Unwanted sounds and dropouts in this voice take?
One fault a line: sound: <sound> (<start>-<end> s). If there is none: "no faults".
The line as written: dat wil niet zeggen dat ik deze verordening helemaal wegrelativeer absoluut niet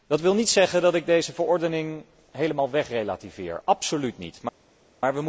no faults